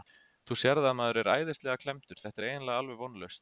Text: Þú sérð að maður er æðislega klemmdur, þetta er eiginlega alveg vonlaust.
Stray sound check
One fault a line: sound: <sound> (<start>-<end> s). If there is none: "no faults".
no faults